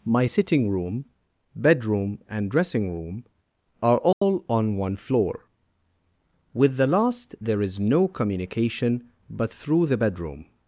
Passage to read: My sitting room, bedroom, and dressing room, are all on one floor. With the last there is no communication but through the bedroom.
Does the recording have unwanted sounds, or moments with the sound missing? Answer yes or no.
yes